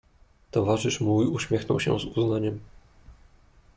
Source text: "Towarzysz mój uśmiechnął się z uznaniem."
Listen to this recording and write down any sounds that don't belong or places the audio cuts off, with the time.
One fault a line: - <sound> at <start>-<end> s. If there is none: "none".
none